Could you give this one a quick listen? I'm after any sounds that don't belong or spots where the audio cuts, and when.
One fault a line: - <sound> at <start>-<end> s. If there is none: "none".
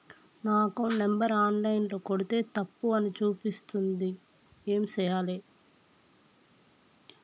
none